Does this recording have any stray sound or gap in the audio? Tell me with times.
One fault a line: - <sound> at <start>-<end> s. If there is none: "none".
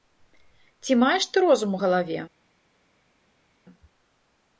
none